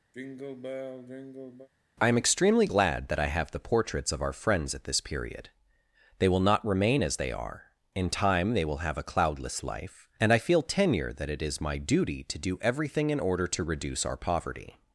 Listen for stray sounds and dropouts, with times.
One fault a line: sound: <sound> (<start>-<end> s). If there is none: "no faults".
sound: sigh (0.1-1.7 s)